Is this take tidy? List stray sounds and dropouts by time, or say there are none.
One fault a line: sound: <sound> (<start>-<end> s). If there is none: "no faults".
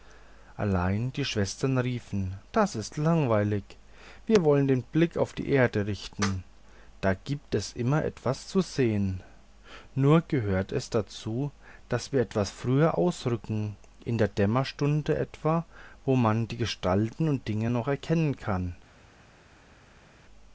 no faults